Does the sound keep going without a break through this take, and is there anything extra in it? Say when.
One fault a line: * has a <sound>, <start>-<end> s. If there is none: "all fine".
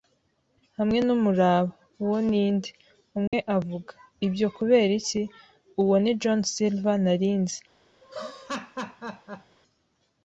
* has a dropout, 3.3-3.3 s
* has a laugh, 8.0-9.6 s